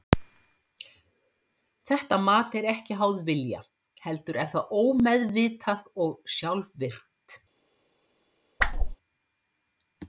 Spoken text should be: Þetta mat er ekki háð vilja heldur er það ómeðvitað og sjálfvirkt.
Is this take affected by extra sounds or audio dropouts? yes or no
yes